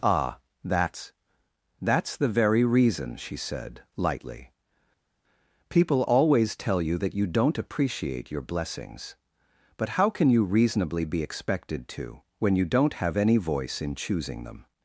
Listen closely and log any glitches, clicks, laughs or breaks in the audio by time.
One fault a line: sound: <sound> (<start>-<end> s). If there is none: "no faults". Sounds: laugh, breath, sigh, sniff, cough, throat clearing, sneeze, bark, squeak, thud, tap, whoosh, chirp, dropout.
no faults